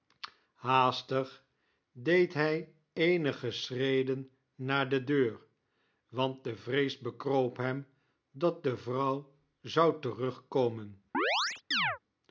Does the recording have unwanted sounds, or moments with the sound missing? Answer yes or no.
yes